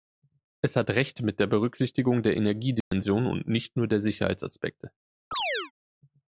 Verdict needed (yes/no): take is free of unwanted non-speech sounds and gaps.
no